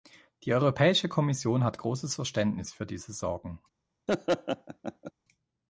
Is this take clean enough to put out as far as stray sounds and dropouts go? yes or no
no